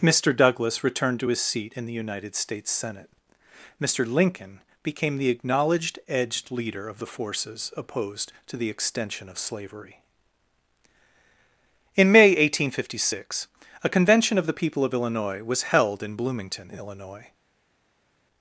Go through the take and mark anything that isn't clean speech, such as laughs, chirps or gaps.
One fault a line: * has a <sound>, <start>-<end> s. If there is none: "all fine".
all fine